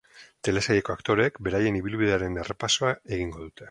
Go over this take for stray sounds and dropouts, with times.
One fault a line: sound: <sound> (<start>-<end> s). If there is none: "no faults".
no faults